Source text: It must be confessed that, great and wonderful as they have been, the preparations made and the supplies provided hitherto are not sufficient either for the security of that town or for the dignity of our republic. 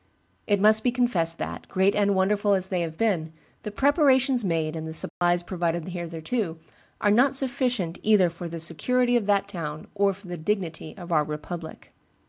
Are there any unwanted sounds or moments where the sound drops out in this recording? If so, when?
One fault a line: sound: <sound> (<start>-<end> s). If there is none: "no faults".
sound: dropout (5.1-5.2 s)